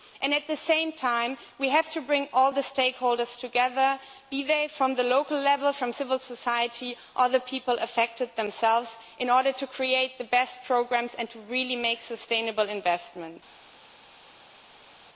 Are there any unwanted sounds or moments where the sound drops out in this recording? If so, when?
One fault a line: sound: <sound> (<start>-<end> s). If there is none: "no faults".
no faults